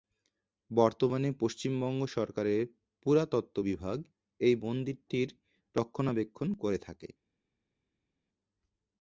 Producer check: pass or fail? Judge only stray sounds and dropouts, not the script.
pass